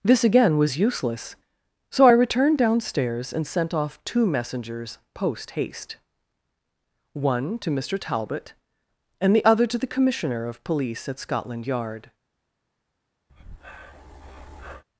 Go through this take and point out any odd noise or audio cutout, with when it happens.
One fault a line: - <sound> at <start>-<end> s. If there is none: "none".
- breath at 13.3-14.8 s